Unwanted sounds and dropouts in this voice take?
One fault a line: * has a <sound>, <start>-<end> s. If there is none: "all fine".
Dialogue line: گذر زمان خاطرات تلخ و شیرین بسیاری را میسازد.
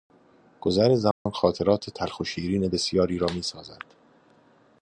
* has a dropout, 1.1-1.3 s